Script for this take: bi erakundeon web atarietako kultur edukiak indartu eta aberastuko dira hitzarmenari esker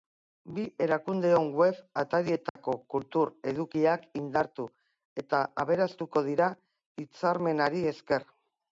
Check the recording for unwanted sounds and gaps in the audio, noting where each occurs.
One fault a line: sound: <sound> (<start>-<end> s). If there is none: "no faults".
sound: dropout (2.5-2.6 s)